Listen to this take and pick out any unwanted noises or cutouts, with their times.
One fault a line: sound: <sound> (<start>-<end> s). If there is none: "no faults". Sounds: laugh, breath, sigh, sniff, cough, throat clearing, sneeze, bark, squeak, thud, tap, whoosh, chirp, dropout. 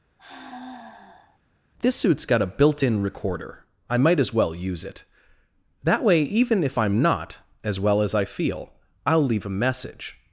sound: sigh (0.2-1.4 s)